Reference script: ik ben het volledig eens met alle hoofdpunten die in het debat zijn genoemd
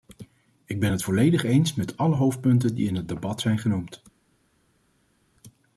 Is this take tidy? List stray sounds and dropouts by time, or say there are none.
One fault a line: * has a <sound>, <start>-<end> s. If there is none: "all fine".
all fine